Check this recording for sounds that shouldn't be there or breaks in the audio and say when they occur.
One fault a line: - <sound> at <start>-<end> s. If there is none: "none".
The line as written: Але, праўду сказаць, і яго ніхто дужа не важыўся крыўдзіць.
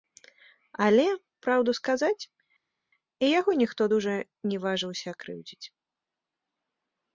none